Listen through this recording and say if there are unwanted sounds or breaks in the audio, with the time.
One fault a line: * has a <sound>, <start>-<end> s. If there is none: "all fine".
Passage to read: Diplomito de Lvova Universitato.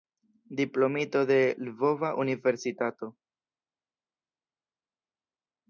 all fine